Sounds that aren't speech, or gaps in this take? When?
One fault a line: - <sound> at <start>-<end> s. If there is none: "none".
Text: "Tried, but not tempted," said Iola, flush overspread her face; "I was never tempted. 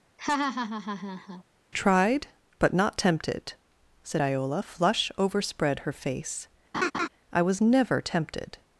- laugh at 0.2-1.4 s
- laugh at 6.7-7.1 s